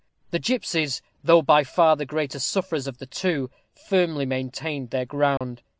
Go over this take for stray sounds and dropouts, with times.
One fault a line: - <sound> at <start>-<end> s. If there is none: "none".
- dropout at 5.4-5.4 s